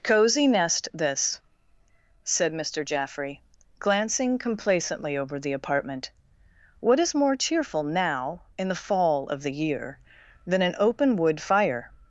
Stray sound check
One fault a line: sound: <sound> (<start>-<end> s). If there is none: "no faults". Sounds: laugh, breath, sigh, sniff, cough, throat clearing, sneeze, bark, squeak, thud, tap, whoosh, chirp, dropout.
no faults